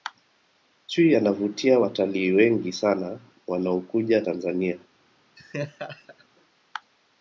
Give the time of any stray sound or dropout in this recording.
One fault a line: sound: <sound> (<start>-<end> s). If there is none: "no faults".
sound: laugh (5.4-6.3 s)